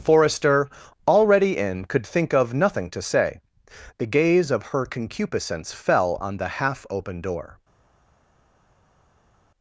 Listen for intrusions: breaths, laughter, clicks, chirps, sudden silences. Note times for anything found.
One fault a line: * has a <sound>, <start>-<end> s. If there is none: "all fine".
all fine